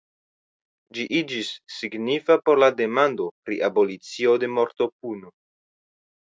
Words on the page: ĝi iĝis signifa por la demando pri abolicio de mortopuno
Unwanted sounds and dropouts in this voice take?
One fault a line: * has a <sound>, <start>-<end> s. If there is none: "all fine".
all fine